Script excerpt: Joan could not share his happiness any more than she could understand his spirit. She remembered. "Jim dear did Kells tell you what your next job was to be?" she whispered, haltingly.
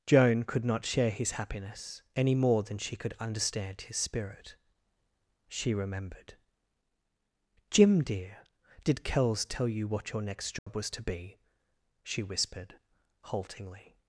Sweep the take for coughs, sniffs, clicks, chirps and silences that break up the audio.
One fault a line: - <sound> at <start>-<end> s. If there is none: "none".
- dropout at 10.6-10.7 s